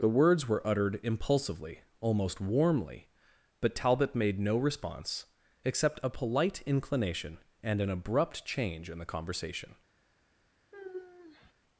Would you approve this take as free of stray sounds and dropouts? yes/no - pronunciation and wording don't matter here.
no